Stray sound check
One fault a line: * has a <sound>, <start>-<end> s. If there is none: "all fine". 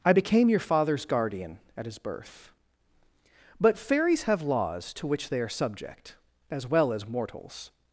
all fine